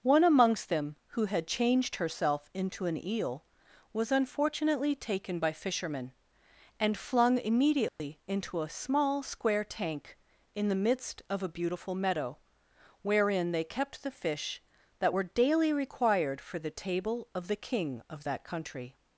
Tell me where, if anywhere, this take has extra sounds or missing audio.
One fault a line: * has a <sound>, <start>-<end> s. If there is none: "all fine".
* has a dropout, 7.9-8.0 s